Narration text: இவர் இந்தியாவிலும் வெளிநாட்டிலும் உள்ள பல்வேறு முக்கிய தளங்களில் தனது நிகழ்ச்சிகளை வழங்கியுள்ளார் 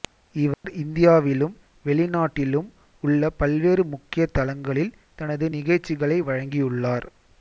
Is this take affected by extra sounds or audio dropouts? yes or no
yes